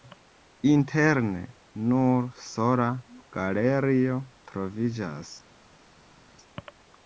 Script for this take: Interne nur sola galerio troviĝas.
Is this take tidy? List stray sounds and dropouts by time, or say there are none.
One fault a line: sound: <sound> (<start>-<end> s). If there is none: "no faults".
no faults